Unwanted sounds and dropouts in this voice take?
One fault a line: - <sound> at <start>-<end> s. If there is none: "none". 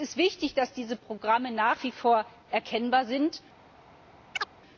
- chirp at 4.3-4.5 s